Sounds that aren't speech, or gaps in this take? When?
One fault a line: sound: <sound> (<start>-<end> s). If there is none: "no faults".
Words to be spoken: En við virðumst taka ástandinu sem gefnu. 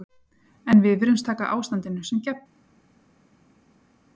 no faults